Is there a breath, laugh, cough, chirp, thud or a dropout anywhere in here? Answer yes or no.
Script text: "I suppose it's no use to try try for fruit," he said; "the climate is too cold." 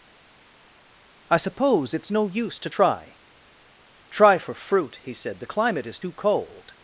no